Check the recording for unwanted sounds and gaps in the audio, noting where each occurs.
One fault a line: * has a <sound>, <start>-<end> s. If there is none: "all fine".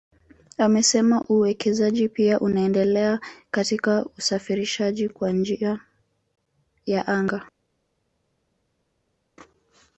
all fine